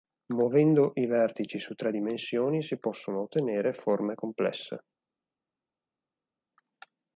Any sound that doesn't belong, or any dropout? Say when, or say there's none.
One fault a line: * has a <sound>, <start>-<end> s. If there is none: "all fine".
all fine